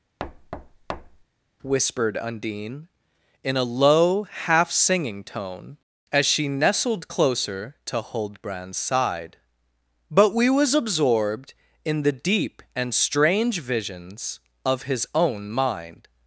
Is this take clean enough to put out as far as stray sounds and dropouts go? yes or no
no